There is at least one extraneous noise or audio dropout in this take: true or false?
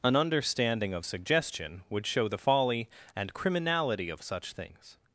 false